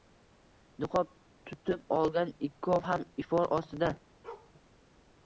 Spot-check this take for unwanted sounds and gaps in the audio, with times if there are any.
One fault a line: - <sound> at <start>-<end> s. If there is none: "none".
- bark at 4.2-4.5 s